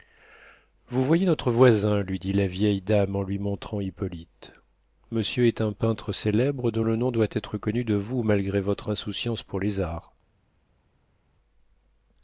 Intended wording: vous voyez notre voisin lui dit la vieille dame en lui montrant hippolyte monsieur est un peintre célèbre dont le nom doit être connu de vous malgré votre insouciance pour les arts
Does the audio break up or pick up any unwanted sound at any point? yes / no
no